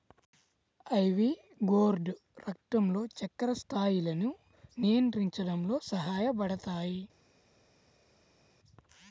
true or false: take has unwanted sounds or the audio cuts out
false